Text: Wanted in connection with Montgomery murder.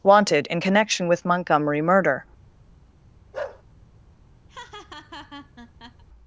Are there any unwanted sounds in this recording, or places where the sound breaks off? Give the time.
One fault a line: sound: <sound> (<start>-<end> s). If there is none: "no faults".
sound: bark (3.3-3.6 s)
sound: laugh (4.5-6.0 s)